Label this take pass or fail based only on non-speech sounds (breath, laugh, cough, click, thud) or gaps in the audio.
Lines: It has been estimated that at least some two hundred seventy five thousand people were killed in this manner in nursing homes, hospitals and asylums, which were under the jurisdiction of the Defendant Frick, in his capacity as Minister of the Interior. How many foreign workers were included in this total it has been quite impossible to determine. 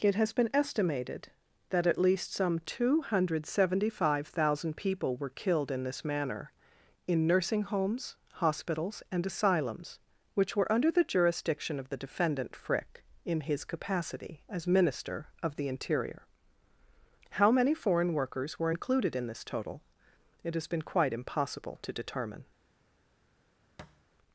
fail